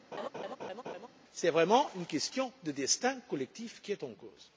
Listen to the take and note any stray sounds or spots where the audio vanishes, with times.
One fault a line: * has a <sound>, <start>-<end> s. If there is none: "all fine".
* has a laugh, 0.1-1.1 s